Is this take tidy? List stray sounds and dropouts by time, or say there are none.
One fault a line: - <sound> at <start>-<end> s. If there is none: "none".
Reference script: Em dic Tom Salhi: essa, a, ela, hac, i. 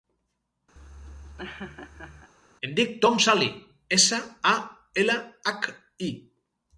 - laugh at 0.8-2.3 s